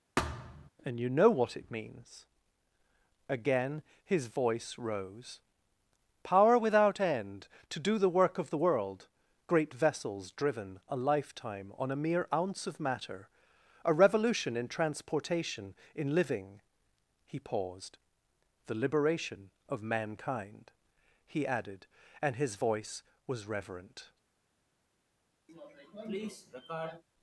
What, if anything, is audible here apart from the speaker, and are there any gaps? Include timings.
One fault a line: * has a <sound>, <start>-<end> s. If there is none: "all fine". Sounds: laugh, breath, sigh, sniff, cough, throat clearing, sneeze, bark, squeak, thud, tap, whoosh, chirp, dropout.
* has a thud, 0.2-0.7 s
* has a sniff, 25.5-27.0 s